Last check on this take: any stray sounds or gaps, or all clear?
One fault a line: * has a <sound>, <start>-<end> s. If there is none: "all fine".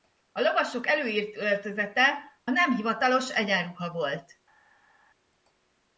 all fine